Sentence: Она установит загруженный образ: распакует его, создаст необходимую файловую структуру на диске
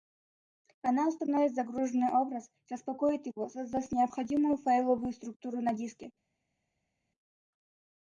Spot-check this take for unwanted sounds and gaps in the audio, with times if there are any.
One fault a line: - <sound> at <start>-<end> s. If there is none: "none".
none